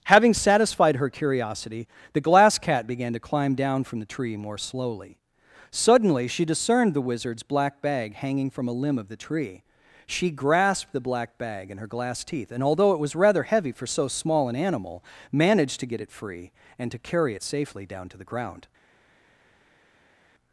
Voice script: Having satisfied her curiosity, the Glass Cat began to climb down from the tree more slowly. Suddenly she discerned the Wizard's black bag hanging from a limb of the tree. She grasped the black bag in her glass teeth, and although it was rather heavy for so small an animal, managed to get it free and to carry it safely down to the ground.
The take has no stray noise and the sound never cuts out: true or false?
true